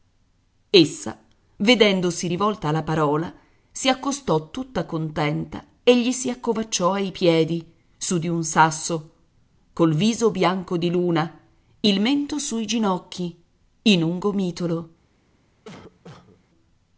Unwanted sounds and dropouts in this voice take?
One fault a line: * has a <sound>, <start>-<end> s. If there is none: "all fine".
* has a cough, 15.6-16.4 s